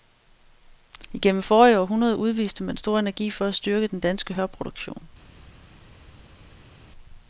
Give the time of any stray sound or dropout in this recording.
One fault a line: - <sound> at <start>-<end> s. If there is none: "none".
none